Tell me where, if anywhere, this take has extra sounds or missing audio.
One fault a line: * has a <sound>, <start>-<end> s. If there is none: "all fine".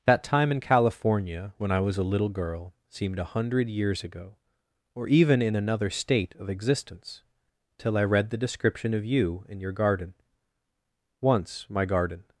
all fine